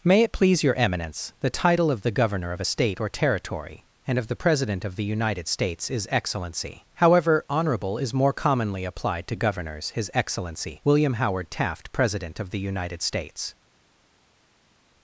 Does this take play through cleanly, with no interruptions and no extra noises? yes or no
yes